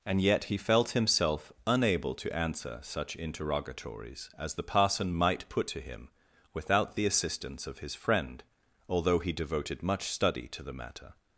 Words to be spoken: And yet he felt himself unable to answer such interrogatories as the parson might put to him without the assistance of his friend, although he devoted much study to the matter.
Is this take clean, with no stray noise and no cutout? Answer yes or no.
yes